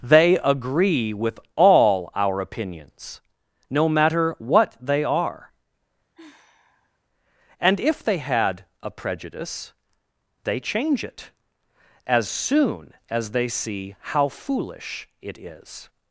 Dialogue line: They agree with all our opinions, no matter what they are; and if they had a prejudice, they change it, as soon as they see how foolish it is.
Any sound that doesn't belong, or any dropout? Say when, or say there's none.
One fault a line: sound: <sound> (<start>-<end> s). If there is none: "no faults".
sound: sigh (6.1-7.0 s)